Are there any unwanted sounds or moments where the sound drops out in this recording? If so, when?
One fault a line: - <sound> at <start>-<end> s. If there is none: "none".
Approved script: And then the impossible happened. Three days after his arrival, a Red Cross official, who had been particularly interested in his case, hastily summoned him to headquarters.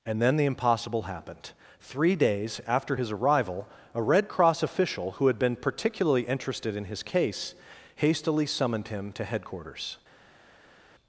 none